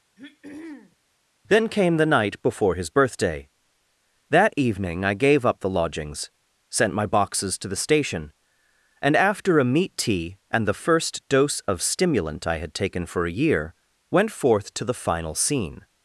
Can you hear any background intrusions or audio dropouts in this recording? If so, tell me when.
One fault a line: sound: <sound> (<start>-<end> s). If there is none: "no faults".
sound: throat clearing (0.2-1.0 s)